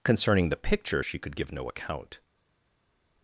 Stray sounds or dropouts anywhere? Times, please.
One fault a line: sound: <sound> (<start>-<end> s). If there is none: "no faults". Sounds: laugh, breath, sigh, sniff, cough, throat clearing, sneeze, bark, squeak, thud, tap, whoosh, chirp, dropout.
no faults